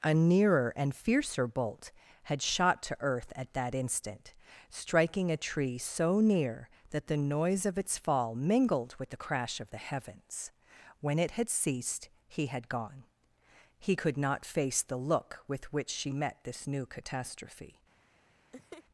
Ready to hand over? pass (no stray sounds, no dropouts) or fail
fail